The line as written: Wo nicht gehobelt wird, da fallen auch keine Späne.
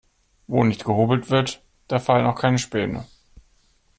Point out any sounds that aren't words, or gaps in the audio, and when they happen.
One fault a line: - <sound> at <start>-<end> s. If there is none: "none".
none